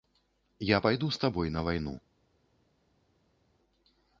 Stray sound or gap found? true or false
false